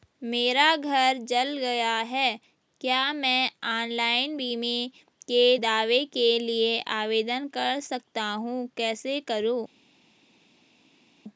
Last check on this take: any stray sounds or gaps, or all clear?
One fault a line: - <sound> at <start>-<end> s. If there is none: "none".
none